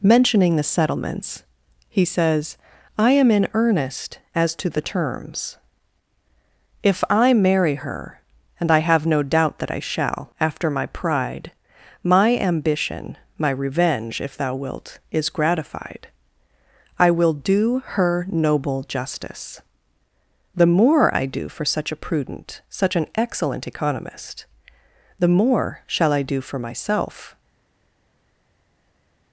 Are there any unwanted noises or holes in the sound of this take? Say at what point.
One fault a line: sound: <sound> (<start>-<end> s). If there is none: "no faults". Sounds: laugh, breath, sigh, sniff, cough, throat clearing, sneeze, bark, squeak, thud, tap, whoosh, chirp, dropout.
no faults